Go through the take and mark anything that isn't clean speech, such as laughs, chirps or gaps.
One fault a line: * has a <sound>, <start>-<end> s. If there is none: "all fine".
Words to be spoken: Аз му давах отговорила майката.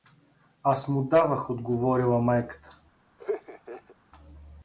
* has a laugh, 3.2-4.0 s